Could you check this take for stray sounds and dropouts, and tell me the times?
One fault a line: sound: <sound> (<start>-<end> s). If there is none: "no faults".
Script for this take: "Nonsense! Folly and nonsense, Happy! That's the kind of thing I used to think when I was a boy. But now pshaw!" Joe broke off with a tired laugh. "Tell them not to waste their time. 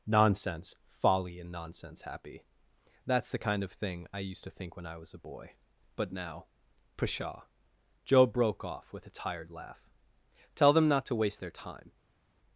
no faults